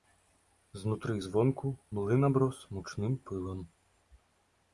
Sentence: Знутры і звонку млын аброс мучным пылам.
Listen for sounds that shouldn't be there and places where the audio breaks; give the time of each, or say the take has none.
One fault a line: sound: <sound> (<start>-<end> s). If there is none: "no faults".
no faults